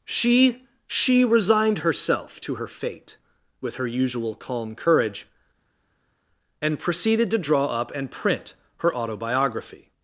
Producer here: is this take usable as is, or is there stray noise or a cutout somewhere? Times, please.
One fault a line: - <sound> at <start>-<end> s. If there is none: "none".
none